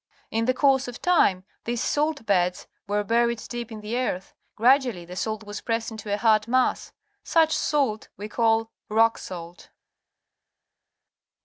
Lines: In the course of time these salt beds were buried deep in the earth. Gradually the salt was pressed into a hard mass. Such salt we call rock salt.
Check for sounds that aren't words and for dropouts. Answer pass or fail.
pass